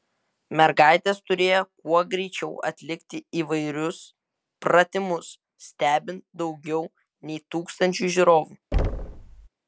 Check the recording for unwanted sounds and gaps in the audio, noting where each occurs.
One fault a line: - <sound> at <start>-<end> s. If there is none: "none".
- thud at 8.7-9.5 s